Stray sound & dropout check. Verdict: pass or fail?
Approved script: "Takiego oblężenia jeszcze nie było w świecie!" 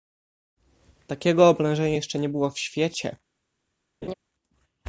fail